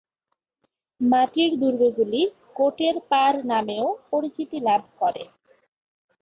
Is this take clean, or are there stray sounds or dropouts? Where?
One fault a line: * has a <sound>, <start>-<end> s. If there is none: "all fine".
all fine